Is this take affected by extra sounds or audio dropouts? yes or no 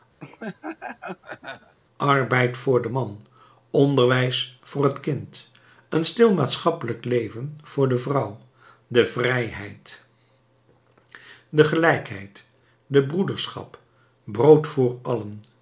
yes